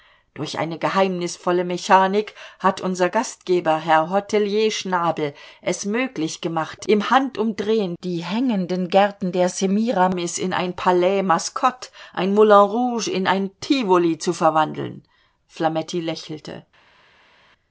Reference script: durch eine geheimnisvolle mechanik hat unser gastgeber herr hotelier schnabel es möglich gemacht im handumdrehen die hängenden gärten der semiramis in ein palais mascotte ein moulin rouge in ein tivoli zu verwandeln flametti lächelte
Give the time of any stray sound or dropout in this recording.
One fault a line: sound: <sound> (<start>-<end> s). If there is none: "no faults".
no faults